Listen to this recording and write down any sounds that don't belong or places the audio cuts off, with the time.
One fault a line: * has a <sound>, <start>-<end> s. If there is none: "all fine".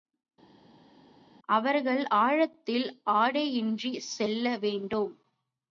all fine